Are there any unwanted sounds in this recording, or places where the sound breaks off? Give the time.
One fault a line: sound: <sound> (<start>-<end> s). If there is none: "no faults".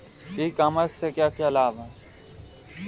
no faults